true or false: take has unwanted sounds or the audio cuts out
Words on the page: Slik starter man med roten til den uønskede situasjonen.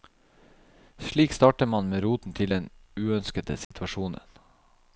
true